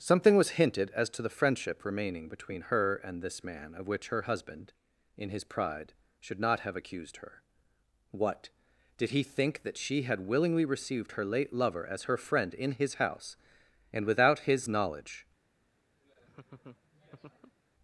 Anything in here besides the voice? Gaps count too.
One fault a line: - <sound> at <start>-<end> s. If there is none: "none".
- laugh at 16.0-17.6 s